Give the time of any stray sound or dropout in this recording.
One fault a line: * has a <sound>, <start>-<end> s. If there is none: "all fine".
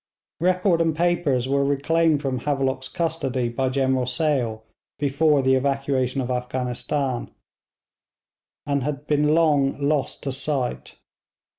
all fine